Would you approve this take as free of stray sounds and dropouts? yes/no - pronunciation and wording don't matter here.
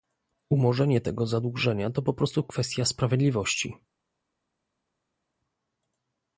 yes